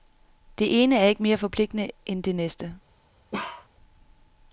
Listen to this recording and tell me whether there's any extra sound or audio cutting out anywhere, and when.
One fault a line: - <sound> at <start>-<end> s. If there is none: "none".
- bark at 3.3-3.7 s